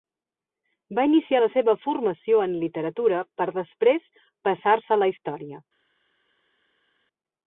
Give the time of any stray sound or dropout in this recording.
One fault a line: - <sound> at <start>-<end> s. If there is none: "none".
none